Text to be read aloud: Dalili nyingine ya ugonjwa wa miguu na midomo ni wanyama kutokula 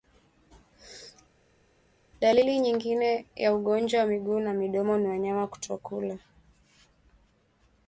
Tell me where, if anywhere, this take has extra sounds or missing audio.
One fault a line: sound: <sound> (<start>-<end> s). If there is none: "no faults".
no faults